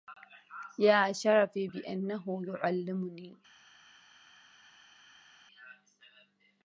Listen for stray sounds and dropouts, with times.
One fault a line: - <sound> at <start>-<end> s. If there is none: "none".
none